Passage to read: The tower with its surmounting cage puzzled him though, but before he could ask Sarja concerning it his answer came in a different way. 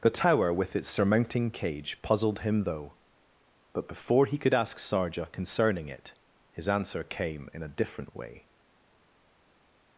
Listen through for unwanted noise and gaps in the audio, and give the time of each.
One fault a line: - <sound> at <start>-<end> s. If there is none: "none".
none